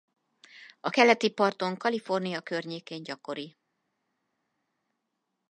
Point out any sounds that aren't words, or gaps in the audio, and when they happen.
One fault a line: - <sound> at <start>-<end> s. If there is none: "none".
none